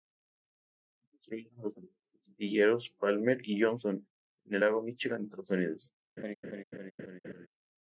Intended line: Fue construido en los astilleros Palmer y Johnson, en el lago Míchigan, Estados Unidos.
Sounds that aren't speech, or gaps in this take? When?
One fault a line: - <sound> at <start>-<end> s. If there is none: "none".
- laugh at 6.2-7.5 s